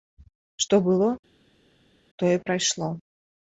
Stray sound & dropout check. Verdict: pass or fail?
pass